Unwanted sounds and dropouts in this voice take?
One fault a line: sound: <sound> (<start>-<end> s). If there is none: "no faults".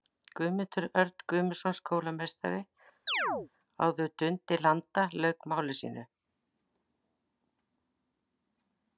sound: chirp (3.1-3.5 s)